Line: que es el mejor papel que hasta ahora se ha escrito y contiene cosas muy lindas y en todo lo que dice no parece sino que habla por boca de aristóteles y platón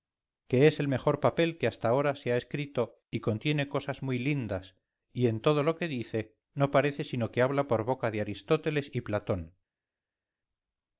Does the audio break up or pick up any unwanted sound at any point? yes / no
no